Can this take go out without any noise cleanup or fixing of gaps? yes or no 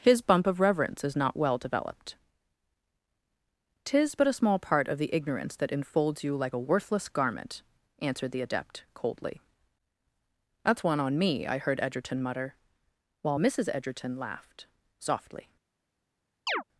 no